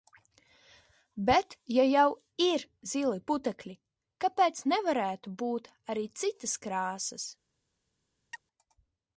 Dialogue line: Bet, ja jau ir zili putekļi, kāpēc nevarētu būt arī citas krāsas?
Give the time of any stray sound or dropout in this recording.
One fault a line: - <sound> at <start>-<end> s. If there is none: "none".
- chirp at 8.3-8.4 s